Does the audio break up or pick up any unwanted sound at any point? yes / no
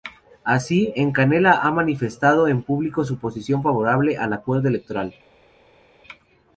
no